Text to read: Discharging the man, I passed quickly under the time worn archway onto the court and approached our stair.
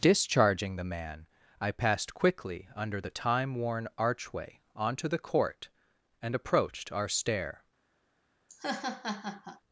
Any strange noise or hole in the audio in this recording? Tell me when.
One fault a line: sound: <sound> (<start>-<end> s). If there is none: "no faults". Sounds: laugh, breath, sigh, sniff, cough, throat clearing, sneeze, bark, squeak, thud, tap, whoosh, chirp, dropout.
sound: laugh (8.5-9.6 s)